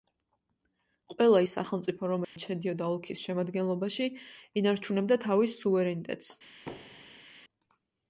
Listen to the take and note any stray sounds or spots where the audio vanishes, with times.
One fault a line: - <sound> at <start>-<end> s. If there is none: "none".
- dropout at 2.2-2.4 s
- thud at 6.7-7.3 s